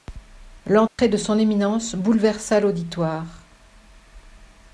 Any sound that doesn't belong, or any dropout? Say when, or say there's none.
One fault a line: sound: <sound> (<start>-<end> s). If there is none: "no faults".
sound: dropout (0.9-1.0 s)